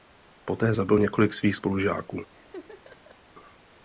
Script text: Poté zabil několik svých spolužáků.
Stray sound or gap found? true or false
true